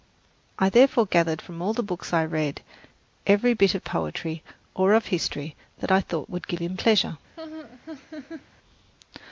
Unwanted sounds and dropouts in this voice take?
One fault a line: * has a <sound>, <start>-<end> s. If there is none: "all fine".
* has a laugh, 7.4-8.5 s